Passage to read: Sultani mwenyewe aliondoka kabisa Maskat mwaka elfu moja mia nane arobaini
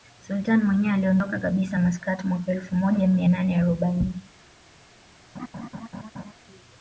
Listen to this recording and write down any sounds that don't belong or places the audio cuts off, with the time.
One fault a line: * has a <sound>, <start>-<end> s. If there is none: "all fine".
* has a laugh, 5.3-6.3 s